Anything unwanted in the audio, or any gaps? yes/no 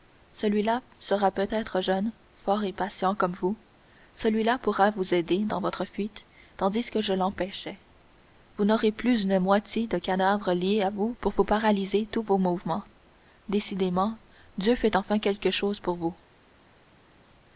no